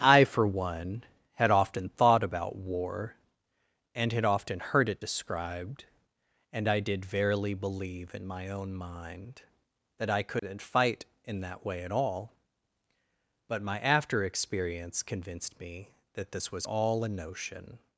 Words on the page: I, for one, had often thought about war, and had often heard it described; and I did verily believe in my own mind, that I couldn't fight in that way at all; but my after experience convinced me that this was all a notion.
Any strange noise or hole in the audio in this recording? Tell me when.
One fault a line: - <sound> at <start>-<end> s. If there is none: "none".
- dropout at 10.4-10.4 s